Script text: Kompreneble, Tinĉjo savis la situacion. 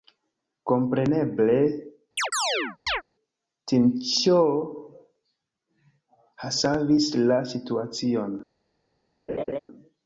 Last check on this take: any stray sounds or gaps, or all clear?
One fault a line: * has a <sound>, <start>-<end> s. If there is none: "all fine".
* has a chirp, 2.2-3.0 s
* has a laugh, 9.3-9.6 s